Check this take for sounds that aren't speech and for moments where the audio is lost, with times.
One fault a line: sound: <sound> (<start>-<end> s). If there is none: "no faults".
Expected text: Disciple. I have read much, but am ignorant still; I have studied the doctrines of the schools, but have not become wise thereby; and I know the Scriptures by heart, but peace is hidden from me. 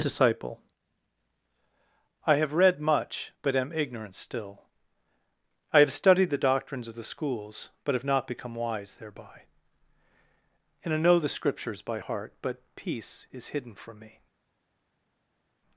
no faults